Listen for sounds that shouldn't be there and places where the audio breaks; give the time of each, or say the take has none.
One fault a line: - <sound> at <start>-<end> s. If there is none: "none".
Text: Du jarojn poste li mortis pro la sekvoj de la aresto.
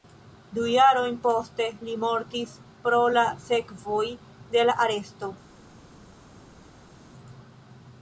none